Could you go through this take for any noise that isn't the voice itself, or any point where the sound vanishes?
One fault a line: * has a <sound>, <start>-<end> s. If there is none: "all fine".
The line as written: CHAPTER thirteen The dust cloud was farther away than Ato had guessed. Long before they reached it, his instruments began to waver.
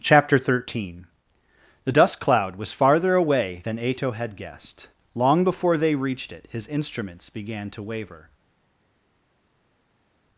all fine